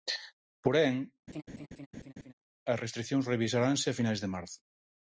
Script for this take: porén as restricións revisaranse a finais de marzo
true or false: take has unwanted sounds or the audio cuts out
true